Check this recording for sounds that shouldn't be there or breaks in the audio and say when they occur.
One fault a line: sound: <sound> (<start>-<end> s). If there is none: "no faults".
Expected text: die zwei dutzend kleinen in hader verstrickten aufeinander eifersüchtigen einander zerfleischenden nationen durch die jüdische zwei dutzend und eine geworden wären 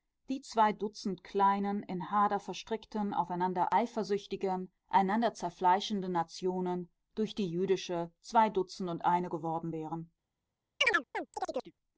sound: chirp (10.8-11.7 s)